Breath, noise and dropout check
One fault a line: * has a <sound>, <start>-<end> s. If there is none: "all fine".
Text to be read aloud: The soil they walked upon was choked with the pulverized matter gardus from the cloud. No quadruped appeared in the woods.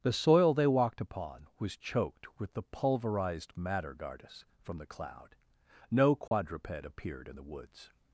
* has a dropout, 6.3-6.3 s